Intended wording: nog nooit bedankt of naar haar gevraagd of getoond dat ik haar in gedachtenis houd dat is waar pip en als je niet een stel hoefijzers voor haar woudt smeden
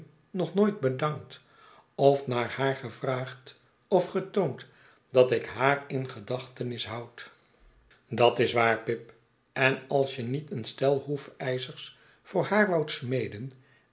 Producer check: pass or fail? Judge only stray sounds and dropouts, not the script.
pass